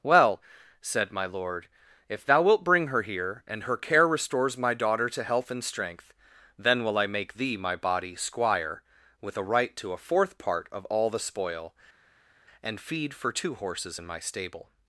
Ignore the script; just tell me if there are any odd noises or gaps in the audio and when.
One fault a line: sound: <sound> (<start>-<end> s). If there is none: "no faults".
no faults